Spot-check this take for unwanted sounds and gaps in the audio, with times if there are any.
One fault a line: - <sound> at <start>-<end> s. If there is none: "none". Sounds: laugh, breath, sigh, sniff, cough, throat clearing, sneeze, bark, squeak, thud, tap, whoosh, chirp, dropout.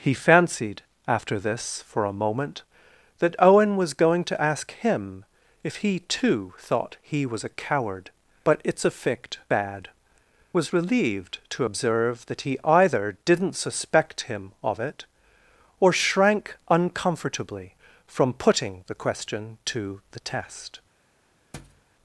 - thud at 21.5-21.8 s